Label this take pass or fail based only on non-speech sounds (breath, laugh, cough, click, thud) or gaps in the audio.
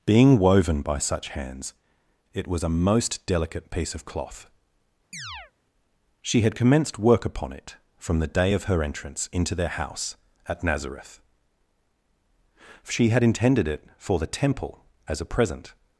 fail